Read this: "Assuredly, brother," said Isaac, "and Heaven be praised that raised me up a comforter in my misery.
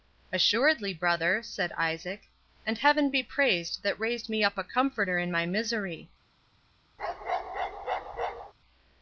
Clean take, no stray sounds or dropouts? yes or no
no